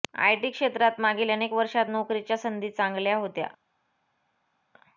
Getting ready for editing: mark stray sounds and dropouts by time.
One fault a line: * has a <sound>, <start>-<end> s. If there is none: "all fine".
all fine